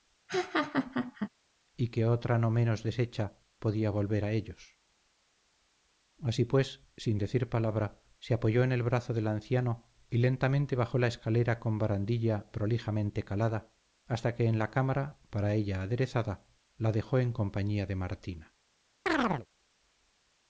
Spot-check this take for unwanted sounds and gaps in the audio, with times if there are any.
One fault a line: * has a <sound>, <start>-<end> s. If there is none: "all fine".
* has a laugh, 0.3-1.3 s
* has a chirp, 19.1-19.5 s